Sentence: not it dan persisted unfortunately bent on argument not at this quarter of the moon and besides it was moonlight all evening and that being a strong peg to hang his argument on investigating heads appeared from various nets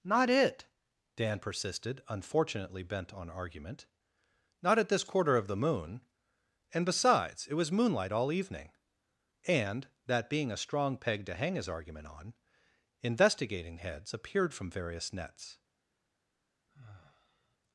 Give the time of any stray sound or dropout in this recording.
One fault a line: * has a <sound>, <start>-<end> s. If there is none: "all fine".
* has a sigh, 16.7-17.6 s